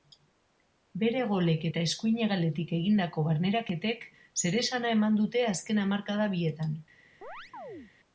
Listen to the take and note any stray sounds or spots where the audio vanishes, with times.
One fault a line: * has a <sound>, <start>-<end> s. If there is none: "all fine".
* has a chirp, 7.2-7.9 s